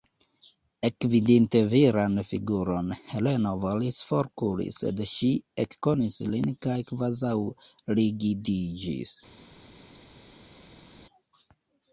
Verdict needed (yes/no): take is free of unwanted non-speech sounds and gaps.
yes